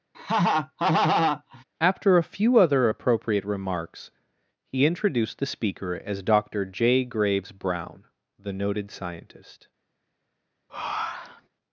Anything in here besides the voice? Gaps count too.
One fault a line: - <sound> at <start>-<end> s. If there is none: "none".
- laugh at 0.1-1.6 s
- breath at 10.7-11.5 s